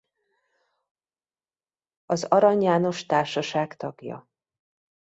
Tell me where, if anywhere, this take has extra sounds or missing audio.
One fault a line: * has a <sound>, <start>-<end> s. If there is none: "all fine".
all fine